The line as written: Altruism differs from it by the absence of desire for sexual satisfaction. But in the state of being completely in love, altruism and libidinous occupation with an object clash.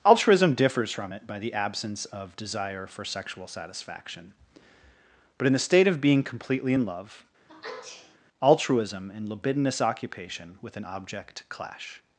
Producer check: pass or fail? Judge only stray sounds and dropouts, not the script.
fail